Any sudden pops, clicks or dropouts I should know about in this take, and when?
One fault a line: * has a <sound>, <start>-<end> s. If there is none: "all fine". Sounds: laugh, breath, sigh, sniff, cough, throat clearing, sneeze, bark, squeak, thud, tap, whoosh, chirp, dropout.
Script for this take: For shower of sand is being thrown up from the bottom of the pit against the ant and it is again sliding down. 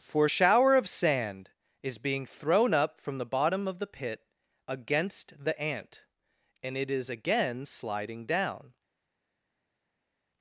all fine